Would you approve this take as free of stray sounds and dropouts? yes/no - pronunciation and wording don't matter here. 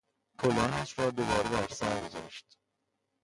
yes